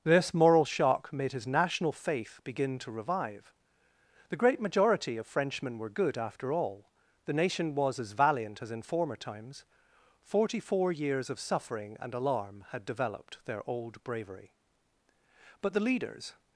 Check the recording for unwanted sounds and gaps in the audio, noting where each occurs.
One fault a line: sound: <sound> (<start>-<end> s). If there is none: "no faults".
no faults